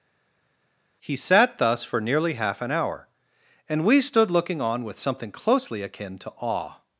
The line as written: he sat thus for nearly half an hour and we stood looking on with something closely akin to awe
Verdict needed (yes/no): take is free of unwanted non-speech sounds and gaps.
yes